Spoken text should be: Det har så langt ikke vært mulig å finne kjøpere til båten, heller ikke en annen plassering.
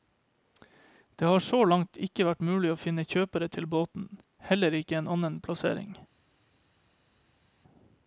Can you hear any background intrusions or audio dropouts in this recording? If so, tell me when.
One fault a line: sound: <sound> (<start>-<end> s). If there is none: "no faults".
no faults